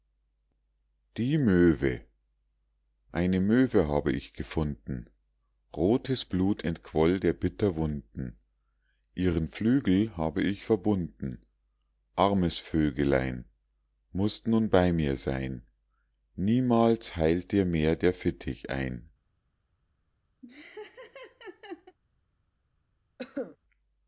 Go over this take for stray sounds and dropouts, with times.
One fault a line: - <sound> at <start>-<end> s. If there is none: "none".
- laugh at 20.4-22.0 s
- cough at 23.2-23.6 s